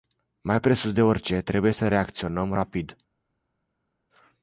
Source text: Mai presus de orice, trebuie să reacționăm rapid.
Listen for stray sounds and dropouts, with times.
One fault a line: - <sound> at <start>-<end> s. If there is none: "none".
none